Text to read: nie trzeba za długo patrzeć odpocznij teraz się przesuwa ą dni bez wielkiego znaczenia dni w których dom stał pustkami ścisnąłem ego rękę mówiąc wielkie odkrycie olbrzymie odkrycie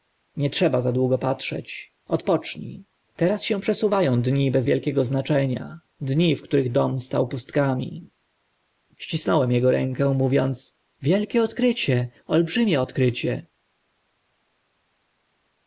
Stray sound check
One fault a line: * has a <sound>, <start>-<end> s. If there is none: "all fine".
all fine